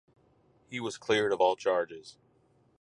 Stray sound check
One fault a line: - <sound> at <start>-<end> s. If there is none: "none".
none